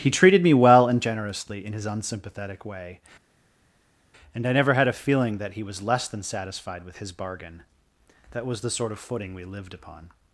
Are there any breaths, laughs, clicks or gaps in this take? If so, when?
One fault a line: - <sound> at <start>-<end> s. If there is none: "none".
none